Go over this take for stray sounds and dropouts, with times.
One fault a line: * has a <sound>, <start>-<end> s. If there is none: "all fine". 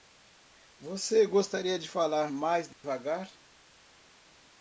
* has a dropout, 2.7-2.8 s